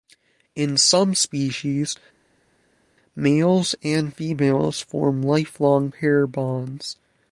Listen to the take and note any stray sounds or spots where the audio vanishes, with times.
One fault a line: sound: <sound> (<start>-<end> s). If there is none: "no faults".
no faults